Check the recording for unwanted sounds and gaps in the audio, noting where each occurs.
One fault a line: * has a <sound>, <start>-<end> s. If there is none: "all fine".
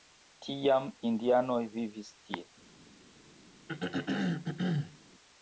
* has a throat clearing, 3.7-5.0 s